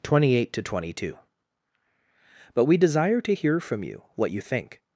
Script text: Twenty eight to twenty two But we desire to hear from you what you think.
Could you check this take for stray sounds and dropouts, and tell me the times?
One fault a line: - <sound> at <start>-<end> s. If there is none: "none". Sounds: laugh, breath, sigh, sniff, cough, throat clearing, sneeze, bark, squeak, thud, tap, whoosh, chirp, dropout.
none